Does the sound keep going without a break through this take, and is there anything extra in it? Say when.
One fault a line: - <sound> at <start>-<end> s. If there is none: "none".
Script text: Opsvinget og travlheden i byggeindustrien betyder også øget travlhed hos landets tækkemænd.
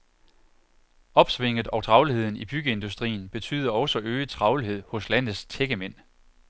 none